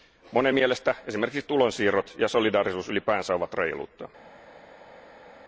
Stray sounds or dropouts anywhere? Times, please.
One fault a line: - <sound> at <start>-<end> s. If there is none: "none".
none